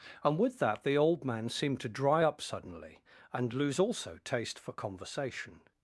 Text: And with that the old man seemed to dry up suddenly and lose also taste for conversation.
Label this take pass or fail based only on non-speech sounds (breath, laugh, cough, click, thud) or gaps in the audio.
pass